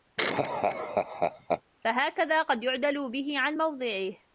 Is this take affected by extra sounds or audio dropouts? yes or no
yes